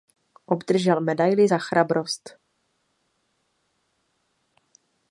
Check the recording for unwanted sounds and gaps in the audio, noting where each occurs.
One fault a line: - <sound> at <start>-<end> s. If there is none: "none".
none